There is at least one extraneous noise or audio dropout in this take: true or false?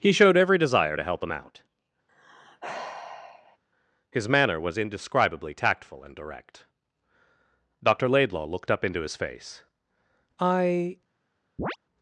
true